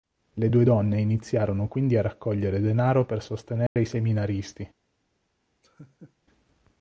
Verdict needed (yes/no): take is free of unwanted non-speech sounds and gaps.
no